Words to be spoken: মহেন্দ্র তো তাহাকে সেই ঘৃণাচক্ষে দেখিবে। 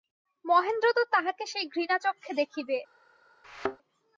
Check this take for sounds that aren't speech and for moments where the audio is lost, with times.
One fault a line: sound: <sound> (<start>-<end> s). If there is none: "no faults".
sound: thud (3.4-3.8 s)